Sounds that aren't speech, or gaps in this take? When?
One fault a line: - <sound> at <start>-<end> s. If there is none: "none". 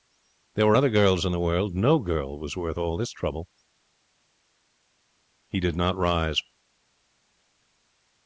none